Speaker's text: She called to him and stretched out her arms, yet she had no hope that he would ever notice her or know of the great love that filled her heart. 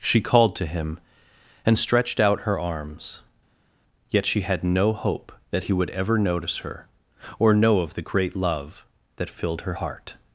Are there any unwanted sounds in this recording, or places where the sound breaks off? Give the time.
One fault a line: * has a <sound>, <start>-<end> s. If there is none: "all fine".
all fine